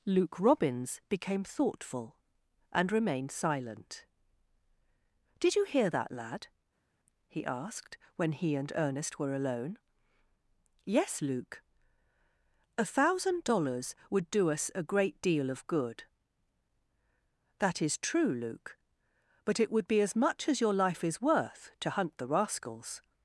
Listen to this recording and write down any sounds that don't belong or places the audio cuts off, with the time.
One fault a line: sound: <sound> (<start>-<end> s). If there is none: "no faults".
no faults